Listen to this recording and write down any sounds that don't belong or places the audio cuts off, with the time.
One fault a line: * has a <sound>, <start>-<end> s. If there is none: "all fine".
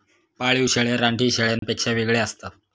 * has a dropout, 1.6-1.6 s